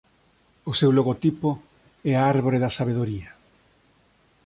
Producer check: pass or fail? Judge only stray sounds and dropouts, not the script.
pass